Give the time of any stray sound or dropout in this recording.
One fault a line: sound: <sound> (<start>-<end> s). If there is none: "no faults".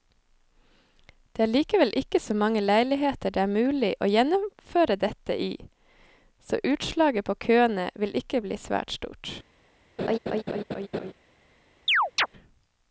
sound: laugh (10.0-11.1 s)
sound: chirp (11.9-12.3 s)